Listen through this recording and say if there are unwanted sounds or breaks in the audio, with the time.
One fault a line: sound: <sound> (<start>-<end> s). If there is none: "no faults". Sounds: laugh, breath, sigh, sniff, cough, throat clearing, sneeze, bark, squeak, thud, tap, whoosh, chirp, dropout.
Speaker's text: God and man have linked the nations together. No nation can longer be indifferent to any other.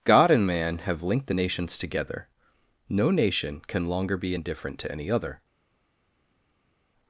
no faults